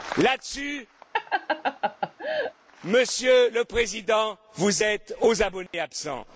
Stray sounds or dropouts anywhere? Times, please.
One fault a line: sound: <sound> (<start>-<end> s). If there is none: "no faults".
sound: laugh (1.1-2.5 s)
sound: dropout (5.7-5.7 s)